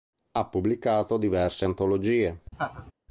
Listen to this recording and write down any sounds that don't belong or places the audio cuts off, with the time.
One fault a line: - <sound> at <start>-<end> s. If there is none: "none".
- laugh at 2.5-2.9 s